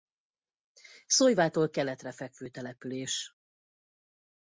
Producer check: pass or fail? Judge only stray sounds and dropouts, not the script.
pass